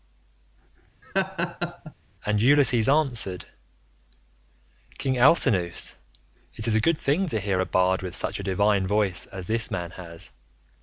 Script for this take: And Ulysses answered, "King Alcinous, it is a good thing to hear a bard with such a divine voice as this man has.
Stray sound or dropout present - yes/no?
yes